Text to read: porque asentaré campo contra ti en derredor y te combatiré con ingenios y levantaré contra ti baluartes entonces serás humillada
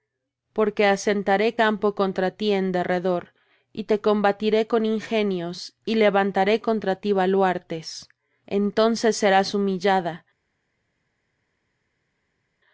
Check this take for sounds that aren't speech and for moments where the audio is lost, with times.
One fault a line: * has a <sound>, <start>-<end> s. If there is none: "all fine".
all fine